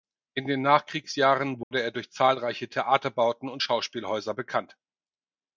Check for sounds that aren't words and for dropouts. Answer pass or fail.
fail